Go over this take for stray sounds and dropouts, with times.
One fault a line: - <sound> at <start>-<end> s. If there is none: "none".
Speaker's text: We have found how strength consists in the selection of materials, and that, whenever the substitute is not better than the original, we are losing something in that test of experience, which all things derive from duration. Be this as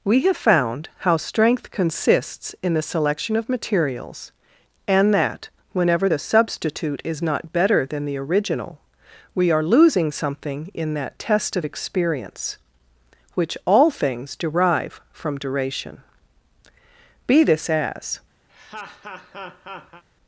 - laugh at 18.5-20.0 s